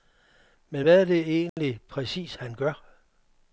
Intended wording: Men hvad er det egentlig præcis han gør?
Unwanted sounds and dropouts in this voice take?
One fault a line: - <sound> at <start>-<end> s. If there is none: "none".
- dropout at 1.5-1.6 s